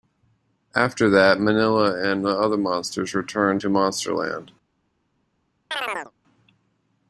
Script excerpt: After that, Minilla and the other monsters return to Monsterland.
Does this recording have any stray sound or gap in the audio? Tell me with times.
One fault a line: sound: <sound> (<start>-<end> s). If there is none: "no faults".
sound: chirp (5.7-6.1 s)